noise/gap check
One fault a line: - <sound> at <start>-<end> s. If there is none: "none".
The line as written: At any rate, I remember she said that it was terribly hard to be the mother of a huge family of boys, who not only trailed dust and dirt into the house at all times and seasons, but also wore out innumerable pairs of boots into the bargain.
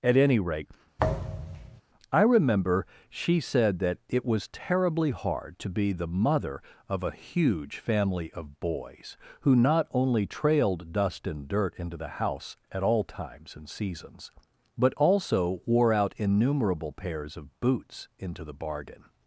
- thud at 1.0-1.8 s